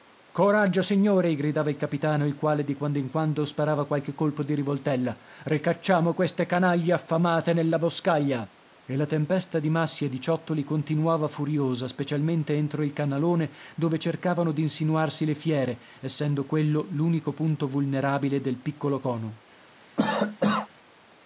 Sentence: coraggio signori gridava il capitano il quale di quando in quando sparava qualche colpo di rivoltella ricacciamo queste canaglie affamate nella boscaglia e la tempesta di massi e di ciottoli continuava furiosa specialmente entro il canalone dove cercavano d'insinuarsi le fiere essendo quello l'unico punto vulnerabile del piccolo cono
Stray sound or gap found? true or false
true